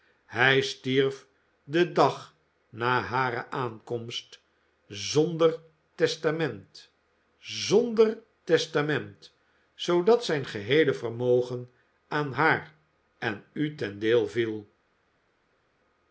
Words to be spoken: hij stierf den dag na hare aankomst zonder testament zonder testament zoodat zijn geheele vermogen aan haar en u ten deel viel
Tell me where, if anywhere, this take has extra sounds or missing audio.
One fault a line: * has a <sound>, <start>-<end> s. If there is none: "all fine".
all fine